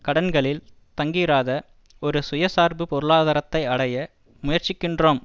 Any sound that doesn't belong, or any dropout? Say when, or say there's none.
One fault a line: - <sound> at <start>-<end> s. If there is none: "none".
none